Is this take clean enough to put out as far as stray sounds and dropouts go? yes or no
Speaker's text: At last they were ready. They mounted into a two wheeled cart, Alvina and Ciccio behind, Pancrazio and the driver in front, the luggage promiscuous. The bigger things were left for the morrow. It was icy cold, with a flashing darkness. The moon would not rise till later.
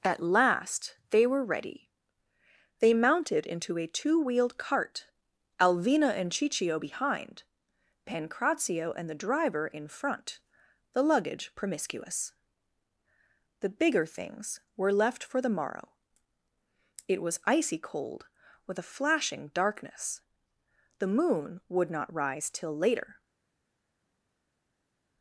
yes